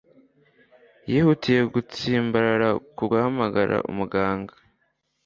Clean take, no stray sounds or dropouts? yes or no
yes